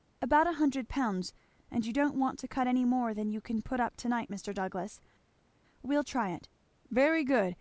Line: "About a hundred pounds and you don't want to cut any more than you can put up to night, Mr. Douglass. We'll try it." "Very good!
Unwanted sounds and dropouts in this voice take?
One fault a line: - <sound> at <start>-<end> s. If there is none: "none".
none